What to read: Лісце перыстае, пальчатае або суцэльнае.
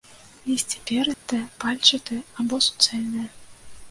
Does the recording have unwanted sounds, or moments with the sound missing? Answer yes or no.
yes